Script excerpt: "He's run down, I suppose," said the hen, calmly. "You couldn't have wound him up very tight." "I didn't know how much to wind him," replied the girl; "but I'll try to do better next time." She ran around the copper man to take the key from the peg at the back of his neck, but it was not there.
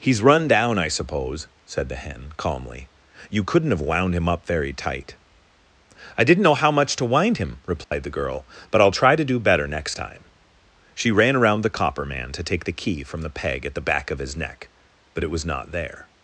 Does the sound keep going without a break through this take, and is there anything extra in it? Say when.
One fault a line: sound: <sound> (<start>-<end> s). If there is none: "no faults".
sound: dropout (7.8-7.9 s)